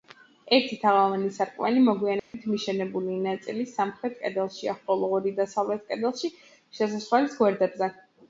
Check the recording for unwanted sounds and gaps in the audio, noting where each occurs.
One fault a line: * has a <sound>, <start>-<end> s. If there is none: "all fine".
* has a dropout, 2.2-2.3 s